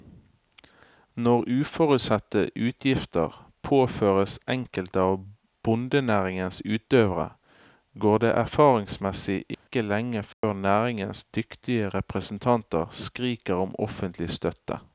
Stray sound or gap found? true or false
true